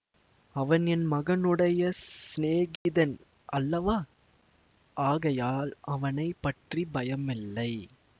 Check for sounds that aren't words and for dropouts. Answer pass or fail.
fail